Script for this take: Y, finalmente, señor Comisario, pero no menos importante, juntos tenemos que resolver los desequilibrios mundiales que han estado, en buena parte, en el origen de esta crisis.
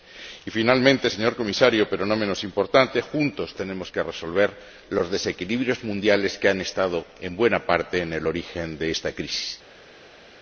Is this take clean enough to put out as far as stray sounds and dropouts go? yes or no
yes